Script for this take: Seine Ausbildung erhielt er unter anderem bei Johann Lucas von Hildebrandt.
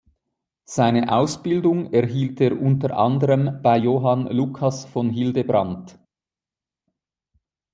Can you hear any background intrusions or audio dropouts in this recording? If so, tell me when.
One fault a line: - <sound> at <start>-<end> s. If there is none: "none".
none